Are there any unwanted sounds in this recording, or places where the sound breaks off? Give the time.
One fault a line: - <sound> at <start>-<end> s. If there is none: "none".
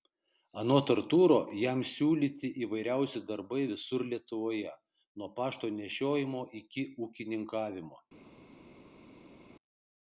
none